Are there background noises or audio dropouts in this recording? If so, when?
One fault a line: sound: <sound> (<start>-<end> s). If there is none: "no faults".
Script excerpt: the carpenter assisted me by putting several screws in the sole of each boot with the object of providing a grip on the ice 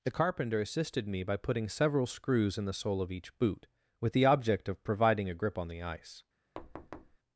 sound: thud (6.6-7.2 s)